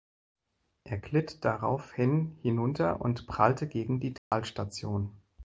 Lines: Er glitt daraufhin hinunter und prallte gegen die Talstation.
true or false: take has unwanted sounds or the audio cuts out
true